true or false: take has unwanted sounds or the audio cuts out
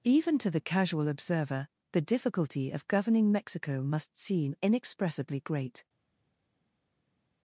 false